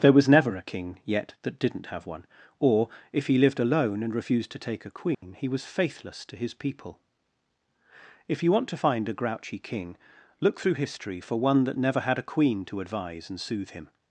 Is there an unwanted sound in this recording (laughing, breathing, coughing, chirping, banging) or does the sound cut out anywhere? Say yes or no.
yes